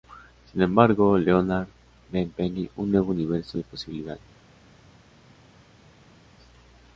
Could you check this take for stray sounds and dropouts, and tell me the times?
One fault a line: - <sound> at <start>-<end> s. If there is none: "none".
none